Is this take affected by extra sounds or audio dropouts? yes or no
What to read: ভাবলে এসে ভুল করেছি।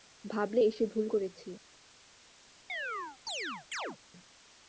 yes